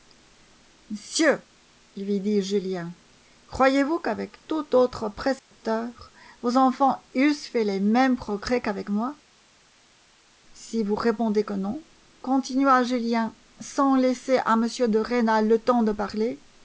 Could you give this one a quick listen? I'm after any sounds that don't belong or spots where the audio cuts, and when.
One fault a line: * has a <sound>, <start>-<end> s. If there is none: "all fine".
* has a dropout, 5.4-5.5 s